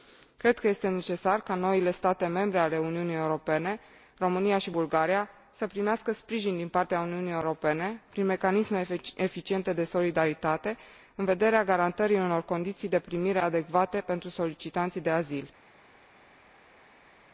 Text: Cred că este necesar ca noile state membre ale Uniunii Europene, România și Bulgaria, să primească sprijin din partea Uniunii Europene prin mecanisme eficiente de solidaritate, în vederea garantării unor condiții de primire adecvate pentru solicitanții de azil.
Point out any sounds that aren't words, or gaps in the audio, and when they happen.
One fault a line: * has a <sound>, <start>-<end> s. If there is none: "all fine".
all fine